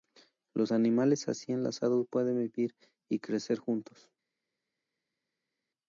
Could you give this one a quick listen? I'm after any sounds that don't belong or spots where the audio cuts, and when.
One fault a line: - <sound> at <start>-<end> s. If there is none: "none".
none